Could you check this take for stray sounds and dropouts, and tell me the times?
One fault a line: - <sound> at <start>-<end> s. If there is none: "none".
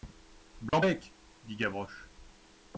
- dropout at 0.7-0.7 s